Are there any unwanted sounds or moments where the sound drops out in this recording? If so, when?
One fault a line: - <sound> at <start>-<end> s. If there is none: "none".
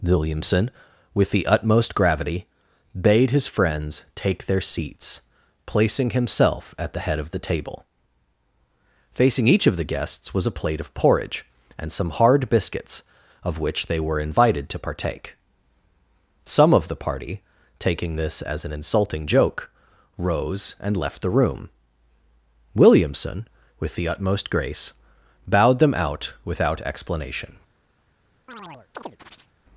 - chirp at 28.5-29.5 s